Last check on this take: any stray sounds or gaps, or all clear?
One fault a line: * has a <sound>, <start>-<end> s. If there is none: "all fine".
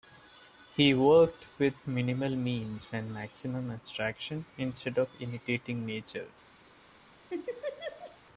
* has a laugh, 7.3-8.2 s